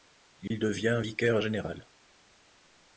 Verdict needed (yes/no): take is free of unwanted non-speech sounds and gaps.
no